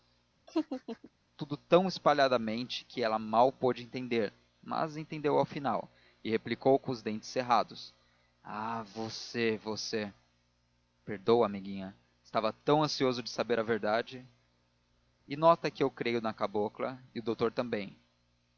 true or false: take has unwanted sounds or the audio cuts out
true